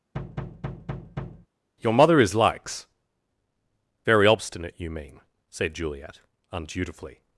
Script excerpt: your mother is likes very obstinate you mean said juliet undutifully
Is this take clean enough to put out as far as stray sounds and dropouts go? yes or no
no